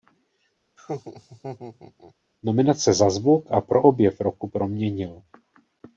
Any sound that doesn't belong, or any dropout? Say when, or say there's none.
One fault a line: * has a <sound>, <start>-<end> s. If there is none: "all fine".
* has a laugh, 0.8-2.1 s